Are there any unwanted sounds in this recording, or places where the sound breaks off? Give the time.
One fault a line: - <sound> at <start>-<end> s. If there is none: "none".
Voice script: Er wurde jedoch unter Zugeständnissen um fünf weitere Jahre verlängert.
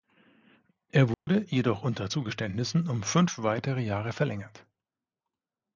- dropout at 1.1-1.3 s